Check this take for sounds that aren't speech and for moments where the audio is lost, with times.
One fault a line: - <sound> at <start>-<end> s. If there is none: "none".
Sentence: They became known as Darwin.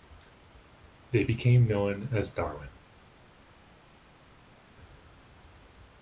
none